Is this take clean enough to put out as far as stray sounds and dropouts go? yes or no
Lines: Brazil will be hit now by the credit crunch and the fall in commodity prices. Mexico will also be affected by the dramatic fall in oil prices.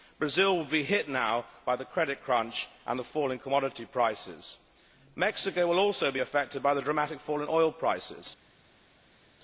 yes